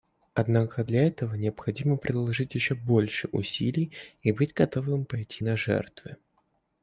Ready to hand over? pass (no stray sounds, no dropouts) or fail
pass